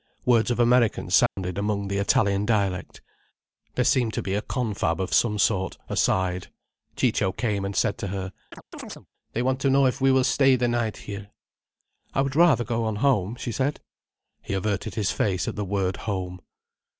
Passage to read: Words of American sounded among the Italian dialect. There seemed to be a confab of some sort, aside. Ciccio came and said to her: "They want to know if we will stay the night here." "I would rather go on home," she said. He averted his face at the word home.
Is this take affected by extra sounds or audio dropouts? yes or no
yes